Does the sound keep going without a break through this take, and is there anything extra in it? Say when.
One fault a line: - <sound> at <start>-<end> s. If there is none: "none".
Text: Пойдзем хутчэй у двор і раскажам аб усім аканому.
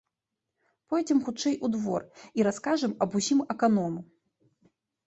none